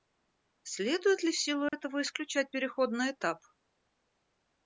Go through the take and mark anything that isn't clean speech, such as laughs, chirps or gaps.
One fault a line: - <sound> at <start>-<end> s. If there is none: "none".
- dropout at 1.7-1.7 s